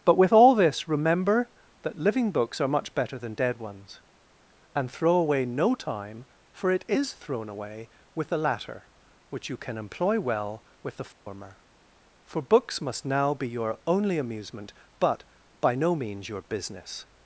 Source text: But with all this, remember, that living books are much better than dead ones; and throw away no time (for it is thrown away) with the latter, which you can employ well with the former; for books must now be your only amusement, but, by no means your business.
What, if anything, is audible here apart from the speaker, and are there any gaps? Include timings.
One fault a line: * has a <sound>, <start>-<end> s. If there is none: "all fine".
* has a dropout, 11.1-11.3 s